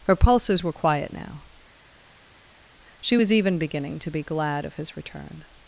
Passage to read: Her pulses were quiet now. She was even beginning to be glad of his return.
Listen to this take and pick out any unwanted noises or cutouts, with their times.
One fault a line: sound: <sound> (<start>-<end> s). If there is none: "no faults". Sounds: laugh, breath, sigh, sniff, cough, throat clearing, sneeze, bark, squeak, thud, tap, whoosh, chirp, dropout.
no faults